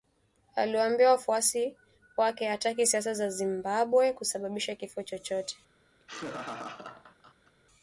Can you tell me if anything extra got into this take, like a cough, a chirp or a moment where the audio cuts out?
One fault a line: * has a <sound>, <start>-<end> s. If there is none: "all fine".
* has a laugh, 6.0-7.5 s